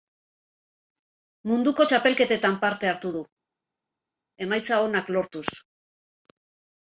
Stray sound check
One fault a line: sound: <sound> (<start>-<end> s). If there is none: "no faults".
no faults